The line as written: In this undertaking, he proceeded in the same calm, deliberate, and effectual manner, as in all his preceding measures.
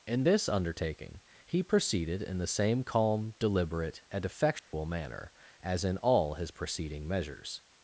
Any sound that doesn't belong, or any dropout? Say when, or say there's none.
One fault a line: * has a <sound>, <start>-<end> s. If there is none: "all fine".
* has a dropout, 4.6-4.7 s